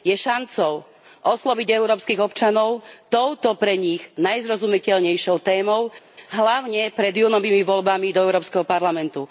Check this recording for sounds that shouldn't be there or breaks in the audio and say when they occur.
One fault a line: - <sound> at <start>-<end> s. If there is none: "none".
none